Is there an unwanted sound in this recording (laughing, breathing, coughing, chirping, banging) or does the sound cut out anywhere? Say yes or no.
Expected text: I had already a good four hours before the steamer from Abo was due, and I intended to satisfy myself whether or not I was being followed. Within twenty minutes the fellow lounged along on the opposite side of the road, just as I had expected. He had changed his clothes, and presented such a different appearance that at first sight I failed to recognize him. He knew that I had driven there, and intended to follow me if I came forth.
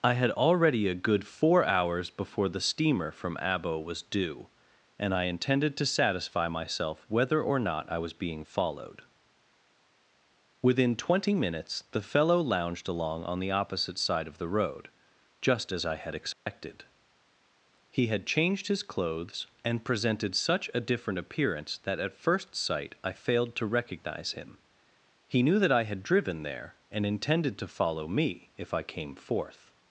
yes